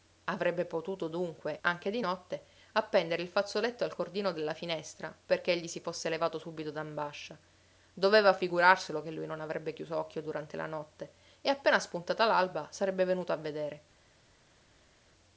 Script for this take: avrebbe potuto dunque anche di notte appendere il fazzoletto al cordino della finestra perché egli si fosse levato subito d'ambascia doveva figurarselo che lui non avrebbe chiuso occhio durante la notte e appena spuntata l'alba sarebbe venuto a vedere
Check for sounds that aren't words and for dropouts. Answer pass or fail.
pass